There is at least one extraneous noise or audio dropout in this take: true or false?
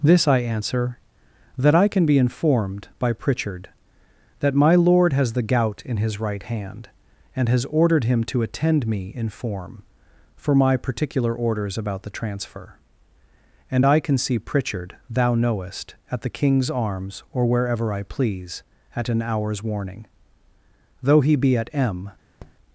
true